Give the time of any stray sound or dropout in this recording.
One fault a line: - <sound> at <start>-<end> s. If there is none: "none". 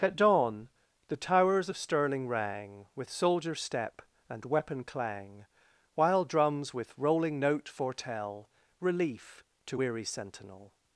none